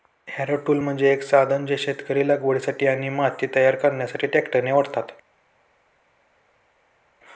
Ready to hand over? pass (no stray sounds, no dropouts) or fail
pass